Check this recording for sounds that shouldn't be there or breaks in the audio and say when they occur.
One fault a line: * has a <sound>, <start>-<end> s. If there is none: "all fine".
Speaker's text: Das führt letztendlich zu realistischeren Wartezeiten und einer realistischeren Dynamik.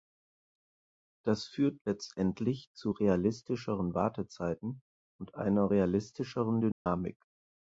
* has a dropout, 6.7-6.9 s